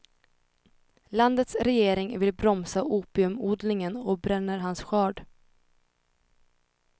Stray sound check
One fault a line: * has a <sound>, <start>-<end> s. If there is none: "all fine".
all fine